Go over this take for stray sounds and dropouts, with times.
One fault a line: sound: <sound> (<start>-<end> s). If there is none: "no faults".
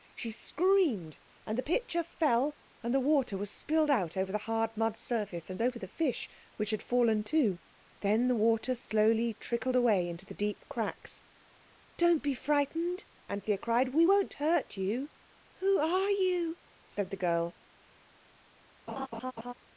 sound: laugh (18.9-19.5 s)